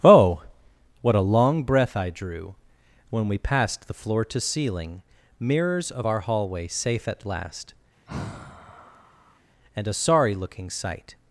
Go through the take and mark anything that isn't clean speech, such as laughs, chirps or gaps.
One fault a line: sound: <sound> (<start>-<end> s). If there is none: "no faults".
sound: sigh (8.1-9.4 s)